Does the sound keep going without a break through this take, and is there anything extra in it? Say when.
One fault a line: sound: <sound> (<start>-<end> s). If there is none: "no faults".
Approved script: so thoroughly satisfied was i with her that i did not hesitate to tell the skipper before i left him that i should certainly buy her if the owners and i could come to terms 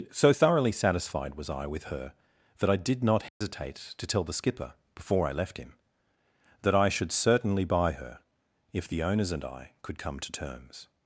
sound: dropout (3.3-3.4 s)